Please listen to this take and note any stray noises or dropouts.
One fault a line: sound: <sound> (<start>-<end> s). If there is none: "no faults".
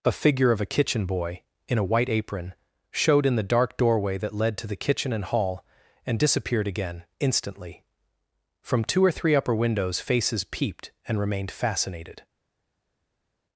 no faults